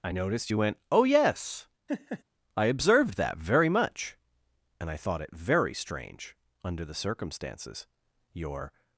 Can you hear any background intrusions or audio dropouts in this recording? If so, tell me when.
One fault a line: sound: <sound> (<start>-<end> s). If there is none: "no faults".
sound: laugh (1.9-2.2 s)